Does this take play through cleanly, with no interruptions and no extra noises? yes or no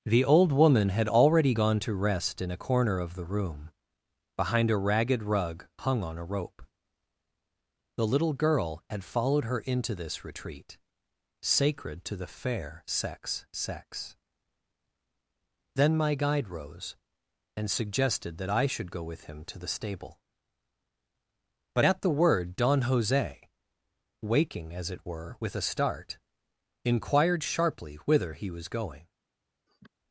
no